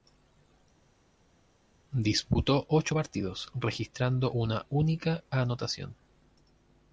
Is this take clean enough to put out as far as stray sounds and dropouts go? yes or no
yes